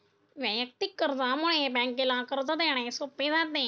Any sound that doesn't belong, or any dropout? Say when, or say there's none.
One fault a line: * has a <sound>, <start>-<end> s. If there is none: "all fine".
all fine